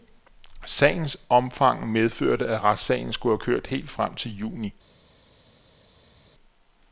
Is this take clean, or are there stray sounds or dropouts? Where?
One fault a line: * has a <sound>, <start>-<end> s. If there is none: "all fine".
all fine